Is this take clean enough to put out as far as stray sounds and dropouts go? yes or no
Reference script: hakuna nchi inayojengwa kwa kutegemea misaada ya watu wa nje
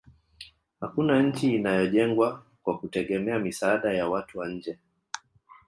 yes